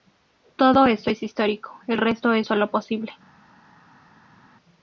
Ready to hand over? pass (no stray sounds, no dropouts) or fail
pass